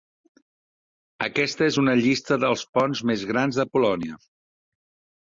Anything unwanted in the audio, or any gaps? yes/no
no